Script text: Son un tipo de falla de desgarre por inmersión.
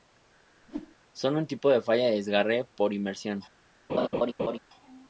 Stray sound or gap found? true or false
true